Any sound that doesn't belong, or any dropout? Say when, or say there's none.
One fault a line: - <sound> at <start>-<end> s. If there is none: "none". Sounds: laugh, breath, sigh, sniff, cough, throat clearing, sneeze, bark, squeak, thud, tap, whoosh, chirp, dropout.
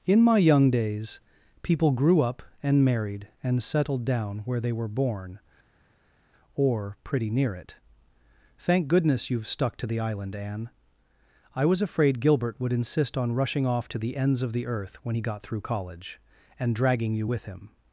none